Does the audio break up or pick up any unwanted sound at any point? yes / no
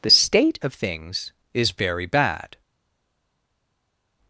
no